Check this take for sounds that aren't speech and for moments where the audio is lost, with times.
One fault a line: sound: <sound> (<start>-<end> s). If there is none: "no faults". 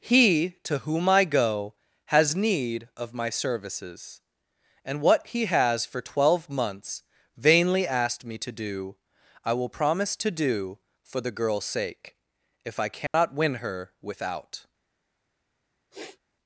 sound: dropout (13.1-13.1 s)
sound: sniff (15.9-16.2 s)